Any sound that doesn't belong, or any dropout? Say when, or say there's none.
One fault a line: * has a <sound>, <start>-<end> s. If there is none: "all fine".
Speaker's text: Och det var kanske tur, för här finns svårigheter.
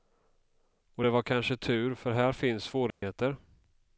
* has a dropout, 2.9-3.0 s